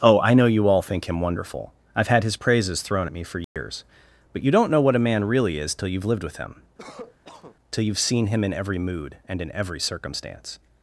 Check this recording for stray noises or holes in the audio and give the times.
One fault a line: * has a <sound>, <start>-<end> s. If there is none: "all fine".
* has a dropout, 3.4-3.6 s
* has a cough, 6.8-7.6 s